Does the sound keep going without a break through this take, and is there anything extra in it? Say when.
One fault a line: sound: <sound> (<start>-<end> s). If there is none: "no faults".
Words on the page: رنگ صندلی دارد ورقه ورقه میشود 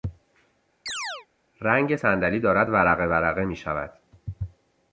sound: chirp (0.9-1.3 s)